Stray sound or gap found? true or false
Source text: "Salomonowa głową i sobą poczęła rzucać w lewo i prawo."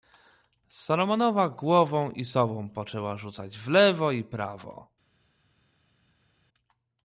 false